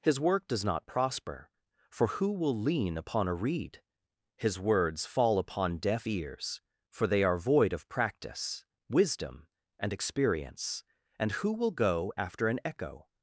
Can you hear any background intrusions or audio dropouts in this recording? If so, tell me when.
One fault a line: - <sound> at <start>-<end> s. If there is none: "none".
none